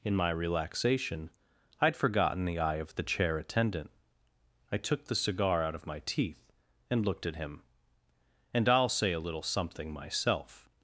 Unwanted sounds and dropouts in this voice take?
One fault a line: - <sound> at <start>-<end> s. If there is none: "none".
none